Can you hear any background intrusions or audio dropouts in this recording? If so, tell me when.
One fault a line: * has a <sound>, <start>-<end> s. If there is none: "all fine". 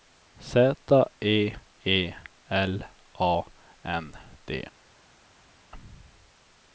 all fine